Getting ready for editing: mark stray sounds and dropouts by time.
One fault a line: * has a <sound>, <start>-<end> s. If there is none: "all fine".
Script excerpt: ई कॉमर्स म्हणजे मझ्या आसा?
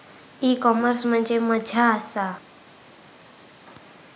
all fine